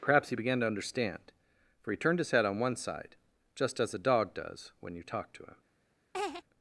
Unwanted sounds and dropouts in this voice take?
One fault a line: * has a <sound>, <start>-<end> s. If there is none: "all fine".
* has a laugh, 6.1-6.4 s